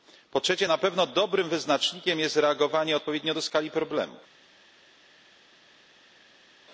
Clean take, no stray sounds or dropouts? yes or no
yes